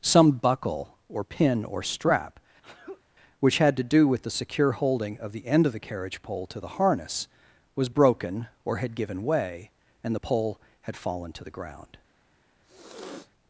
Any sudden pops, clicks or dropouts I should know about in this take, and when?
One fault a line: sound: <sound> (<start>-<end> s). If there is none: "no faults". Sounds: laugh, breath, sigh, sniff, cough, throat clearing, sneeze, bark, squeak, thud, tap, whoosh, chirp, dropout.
sound: sneeze (2.6-3.0 s)
sound: sniff (12.6-13.3 s)